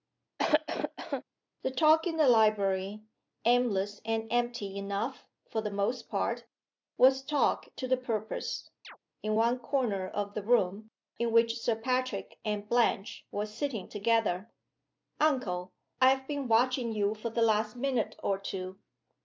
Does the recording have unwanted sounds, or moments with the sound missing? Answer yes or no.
yes